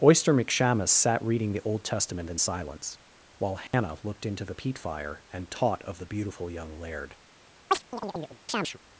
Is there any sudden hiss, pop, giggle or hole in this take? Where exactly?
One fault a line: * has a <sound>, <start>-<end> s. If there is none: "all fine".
* has a dropout, 3.7-3.7 s
* has a chirp, 7.7-8.8 s